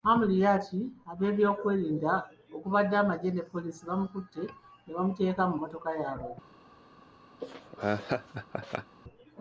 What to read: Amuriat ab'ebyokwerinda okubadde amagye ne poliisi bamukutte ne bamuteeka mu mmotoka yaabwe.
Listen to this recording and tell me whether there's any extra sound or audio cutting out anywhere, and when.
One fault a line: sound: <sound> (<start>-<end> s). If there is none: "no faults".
sound: laugh (7.4-9.0 s)